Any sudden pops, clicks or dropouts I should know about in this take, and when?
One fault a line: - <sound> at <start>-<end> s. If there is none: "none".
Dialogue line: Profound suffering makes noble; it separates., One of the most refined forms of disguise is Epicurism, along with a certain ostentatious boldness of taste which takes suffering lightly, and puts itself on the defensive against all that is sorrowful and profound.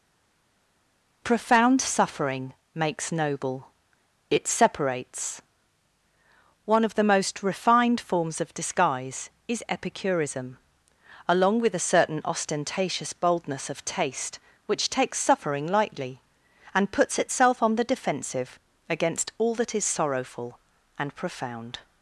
none